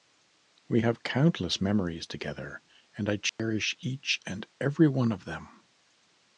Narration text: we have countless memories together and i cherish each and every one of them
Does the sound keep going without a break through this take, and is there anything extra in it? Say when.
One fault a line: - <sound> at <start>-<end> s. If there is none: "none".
- dropout at 3.3-3.4 s